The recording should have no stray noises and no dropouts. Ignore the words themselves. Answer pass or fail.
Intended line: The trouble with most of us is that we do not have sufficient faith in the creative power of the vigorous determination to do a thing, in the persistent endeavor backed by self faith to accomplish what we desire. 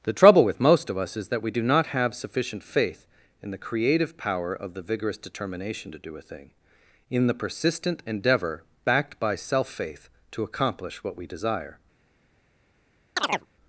fail